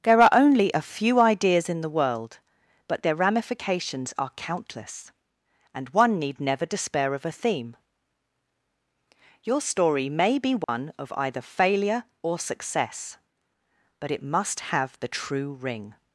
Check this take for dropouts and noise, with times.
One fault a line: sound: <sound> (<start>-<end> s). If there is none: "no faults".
sound: dropout (10.6-10.7 s)